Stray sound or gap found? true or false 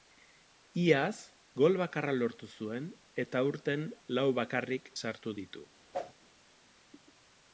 true